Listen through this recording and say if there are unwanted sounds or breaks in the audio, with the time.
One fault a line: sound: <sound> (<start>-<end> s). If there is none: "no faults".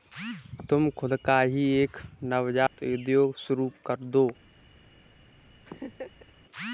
sound: dropout (2.7-2.8 s)
sound: laugh (5.7-6.3 s)